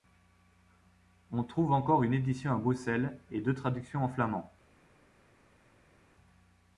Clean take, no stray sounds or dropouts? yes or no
yes